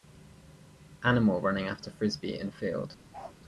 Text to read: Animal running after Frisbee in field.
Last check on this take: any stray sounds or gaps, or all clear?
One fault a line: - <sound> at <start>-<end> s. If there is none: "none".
- bark at 3.1-3.4 s